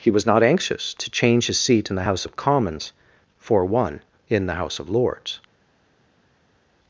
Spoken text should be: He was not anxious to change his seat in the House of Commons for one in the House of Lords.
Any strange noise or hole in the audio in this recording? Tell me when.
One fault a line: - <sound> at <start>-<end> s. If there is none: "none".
none